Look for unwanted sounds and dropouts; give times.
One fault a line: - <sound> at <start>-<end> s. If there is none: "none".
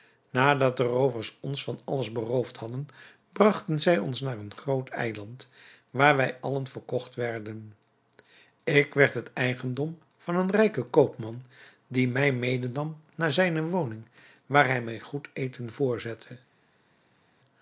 none